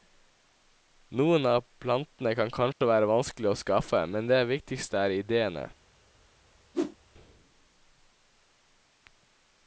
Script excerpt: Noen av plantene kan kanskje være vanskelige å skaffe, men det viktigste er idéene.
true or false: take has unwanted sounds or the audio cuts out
true